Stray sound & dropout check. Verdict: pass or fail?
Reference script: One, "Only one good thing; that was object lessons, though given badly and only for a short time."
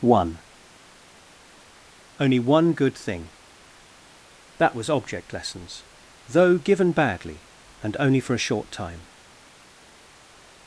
pass